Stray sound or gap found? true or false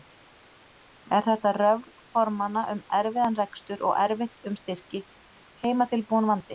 false